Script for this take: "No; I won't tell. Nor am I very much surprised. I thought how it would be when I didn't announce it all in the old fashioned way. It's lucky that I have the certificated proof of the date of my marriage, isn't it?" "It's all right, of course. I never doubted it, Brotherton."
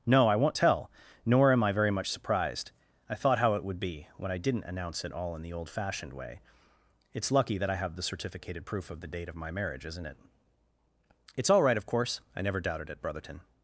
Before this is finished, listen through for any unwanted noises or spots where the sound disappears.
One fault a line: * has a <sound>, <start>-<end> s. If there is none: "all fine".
all fine